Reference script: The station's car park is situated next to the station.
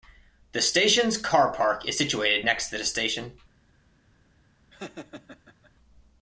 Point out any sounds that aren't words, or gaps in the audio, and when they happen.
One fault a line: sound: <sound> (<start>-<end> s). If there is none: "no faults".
sound: laugh (4.7-5.7 s)